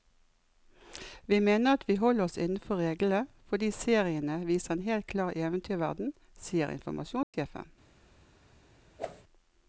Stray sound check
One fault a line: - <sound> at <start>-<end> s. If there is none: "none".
- dropout at 7.2-7.3 s
- whoosh at 9.0-9.2 s